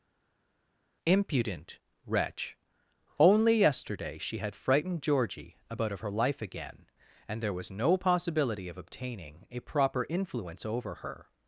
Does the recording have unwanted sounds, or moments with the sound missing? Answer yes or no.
no